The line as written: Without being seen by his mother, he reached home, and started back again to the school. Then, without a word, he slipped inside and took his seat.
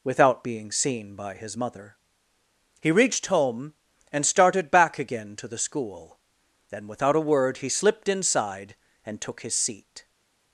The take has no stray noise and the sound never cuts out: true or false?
true